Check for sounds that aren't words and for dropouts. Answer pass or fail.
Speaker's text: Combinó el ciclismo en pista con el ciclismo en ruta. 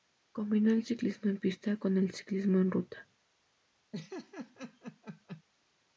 fail